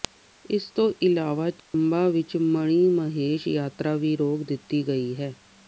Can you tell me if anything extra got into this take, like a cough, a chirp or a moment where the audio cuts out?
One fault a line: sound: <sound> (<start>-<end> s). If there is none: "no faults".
sound: dropout (1.6-1.7 s)